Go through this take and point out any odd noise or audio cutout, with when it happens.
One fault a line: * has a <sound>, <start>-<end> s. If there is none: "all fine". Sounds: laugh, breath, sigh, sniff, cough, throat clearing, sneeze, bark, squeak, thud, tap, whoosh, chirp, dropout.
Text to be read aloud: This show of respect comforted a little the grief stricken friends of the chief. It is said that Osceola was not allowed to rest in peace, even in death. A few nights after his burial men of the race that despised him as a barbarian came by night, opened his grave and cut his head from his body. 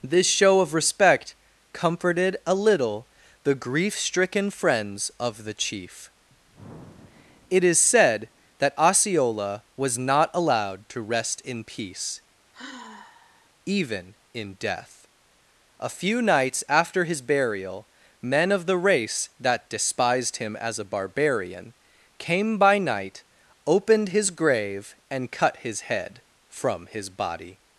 * has a sigh, 12.5-13.5 s